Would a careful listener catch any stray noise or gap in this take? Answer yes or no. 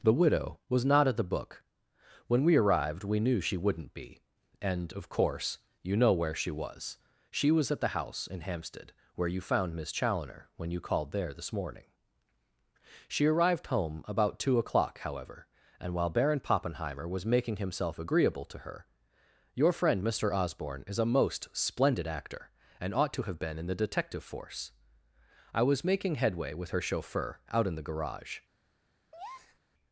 yes